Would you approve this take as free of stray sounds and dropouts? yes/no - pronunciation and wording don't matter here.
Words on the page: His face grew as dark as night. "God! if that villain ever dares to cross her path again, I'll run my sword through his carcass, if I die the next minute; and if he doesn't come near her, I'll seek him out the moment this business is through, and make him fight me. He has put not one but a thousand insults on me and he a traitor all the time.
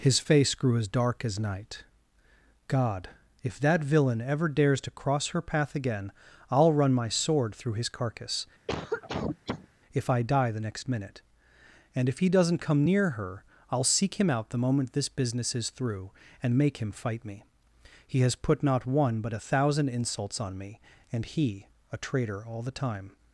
no